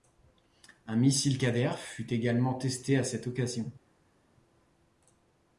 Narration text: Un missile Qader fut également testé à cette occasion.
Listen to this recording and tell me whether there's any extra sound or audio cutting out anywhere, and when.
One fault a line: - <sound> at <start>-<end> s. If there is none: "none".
none